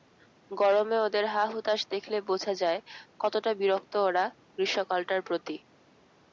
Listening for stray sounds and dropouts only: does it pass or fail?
pass